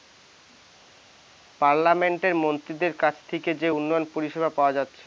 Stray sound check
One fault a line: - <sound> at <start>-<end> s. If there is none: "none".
none